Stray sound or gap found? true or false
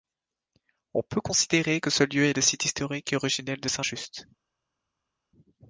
false